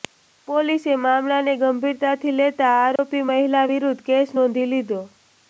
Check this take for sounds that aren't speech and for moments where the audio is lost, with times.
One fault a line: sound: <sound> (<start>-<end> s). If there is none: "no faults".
sound: dropout (3.0-3.0 s)